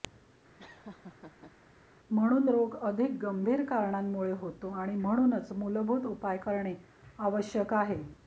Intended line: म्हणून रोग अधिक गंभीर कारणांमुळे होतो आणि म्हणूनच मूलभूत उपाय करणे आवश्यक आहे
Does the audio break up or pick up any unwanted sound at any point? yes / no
yes